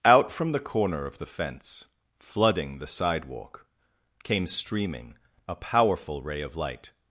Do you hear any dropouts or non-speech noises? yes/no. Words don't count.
no